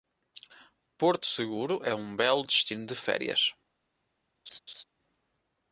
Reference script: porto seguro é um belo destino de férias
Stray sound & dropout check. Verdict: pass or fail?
fail